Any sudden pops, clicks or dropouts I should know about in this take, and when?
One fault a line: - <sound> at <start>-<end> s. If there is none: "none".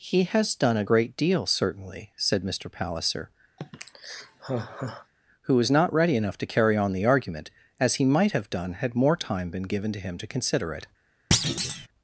- sigh at 3.6-5.1 s
- thud at 11.3-11.9 s